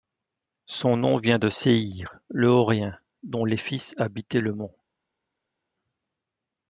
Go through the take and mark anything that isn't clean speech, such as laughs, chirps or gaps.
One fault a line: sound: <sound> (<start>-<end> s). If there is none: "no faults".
no faults